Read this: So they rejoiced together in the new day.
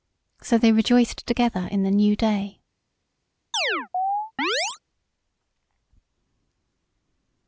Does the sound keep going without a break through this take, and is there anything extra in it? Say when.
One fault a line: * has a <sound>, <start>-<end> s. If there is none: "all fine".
* has a chirp, 3.5-4.8 s